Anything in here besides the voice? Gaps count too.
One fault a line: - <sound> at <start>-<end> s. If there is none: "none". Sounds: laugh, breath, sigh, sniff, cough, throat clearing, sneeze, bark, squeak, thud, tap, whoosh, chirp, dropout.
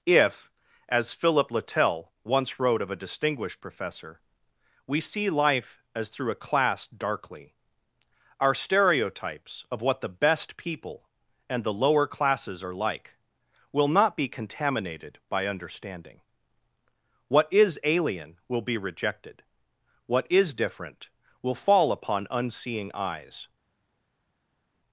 none